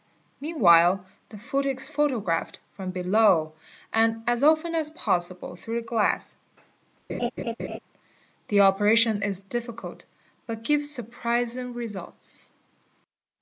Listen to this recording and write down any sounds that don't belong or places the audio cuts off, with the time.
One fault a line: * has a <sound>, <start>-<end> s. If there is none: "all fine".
* has a laugh, 7.1-7.8 s